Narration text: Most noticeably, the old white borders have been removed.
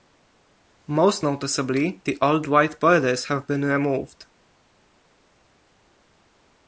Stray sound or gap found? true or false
false